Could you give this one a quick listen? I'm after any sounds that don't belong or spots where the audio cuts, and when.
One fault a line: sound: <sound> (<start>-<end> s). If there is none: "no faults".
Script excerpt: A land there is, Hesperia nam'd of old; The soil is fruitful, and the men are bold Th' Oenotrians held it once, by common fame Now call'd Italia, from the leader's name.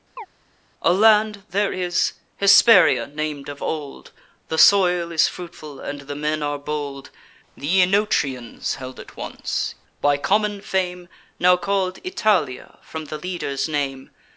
sound: chirp (0.2-0.3 s)